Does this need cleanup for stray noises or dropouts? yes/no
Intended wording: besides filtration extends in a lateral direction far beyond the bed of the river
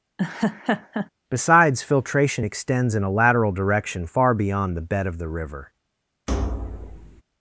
yes